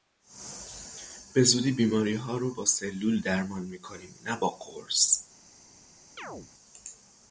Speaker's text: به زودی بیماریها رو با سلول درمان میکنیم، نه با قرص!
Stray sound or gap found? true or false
true